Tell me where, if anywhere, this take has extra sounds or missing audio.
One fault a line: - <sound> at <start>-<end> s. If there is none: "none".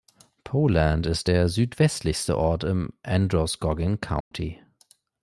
- dropout at 4.2-4.3 s